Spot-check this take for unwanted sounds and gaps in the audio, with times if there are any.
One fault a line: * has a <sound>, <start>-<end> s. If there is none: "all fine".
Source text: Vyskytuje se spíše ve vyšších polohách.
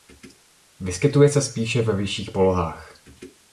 all fine